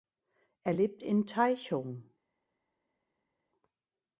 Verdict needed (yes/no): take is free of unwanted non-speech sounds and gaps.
yes